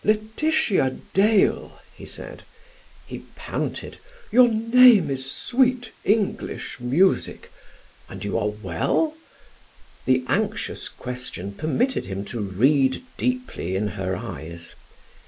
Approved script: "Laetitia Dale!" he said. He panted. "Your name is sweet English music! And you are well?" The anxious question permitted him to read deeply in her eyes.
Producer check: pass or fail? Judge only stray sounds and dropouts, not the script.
pass